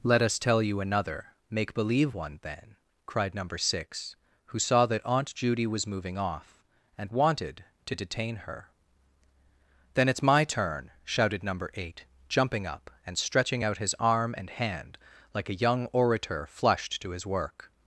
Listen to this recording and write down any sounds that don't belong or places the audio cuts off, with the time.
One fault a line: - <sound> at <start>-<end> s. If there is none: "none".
none